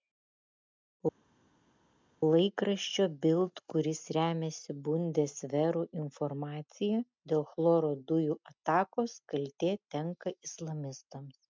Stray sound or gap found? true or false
false